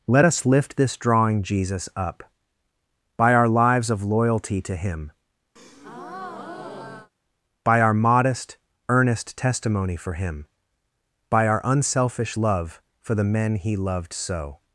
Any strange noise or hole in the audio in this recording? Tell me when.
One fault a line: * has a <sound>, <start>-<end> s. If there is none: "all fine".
* has a breath, 5.6-7.1 s